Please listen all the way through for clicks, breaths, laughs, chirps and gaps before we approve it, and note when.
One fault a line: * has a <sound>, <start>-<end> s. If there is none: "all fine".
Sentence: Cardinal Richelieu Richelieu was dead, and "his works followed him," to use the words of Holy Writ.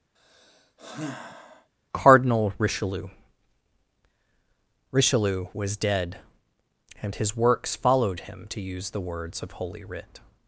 * has a sigh, 0.2-1.7 s